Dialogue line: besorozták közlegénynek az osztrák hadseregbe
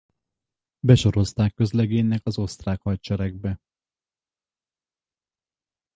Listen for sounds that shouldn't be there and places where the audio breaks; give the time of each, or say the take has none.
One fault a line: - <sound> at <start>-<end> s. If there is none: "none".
none